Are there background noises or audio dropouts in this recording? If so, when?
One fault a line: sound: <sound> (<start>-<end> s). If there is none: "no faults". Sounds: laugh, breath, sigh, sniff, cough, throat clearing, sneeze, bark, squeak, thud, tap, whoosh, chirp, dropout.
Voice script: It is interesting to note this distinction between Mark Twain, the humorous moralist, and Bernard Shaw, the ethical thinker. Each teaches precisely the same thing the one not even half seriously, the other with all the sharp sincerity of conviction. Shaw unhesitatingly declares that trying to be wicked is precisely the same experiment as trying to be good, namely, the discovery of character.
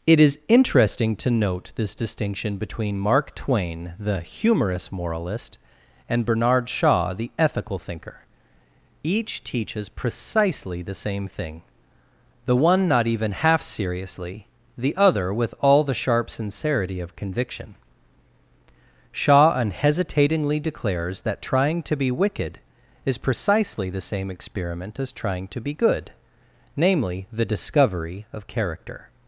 no faults